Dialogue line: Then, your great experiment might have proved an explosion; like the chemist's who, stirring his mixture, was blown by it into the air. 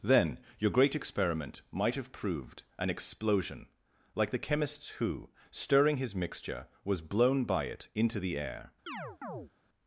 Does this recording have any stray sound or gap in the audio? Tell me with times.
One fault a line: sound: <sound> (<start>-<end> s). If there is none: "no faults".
sound: chirp (8.9-9.5 s)